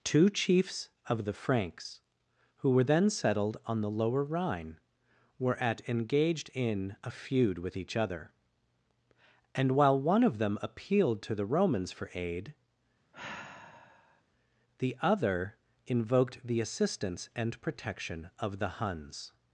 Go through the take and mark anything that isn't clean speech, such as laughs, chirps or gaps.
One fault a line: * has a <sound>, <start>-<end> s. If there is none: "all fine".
* has a sigh, 13.1-14.2 s